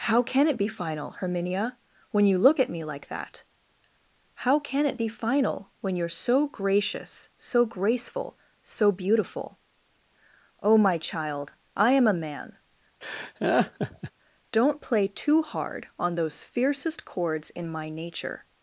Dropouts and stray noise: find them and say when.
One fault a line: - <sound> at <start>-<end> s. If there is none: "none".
- laugh at 13.0-14.1 s